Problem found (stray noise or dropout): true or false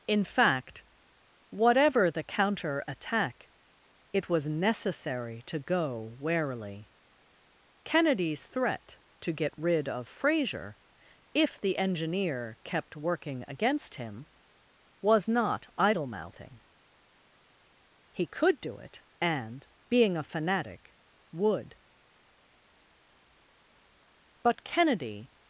false